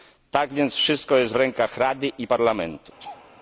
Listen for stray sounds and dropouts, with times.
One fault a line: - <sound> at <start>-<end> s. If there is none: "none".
- laugh at 3.0-3.3 s